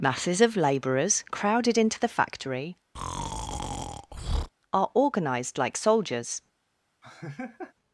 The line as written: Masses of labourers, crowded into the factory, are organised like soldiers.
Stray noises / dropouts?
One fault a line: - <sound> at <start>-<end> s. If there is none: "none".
- breath at 2.9-4.5 s
- laugh at 7.0-7.7 s